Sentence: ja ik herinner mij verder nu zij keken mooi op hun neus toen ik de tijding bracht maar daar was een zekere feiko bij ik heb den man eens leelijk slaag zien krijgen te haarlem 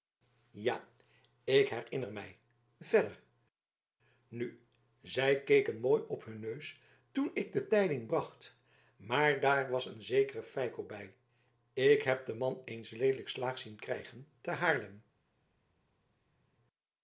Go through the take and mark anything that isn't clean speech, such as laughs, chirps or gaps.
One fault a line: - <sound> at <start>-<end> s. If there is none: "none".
none